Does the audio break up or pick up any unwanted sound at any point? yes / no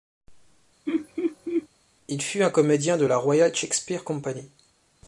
yes